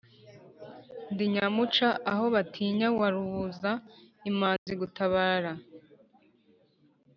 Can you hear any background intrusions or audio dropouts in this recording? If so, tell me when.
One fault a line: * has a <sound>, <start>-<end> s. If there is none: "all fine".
* has a dropout, 4.6-4.7 s